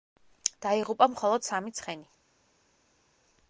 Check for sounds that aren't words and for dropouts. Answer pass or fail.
pass